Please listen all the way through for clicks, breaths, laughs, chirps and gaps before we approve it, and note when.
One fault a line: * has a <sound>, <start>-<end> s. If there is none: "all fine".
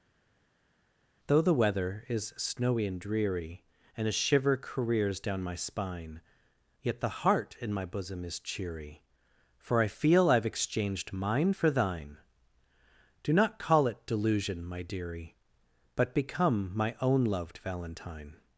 all fine